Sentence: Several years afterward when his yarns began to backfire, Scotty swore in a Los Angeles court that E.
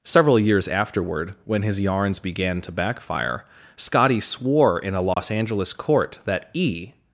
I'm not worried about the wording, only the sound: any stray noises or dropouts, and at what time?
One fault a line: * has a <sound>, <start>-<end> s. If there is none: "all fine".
* has a dropout, 5.1-5.2 s